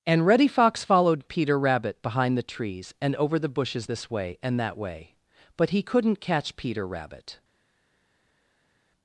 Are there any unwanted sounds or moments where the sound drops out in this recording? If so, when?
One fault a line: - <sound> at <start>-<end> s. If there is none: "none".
none